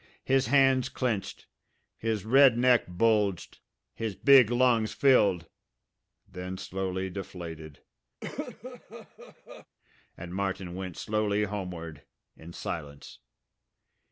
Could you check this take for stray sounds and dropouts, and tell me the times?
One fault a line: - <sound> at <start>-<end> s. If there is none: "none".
- cough at 8.2-9.7 s